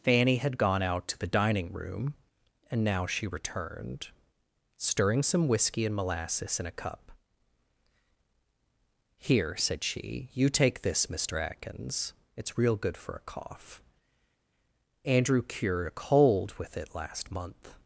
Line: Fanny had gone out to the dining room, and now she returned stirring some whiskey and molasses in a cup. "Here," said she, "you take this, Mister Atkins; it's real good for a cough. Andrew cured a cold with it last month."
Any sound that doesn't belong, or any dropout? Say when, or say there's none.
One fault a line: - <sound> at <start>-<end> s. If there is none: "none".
none